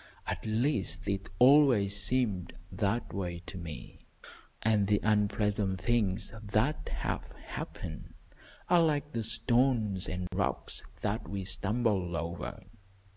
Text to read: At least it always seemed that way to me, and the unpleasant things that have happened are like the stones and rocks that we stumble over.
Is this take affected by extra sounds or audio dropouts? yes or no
yes